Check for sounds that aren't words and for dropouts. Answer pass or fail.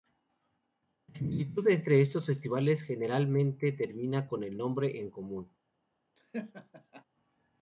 fail